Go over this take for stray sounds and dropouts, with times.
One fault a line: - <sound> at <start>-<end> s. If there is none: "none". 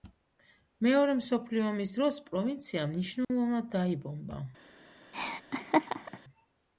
- dropout at 3.2-3.3 s
- laugh at 5.1-6.2 s